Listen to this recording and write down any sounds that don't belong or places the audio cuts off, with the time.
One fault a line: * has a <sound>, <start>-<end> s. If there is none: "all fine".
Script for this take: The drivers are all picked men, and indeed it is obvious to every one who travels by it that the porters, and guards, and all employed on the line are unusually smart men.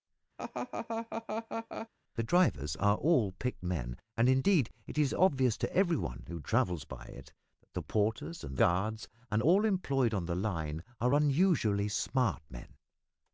* has a laugh, 0.4-1.9 s